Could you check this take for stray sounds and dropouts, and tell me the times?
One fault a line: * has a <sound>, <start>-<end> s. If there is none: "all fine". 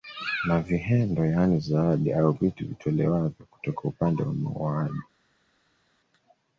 all fine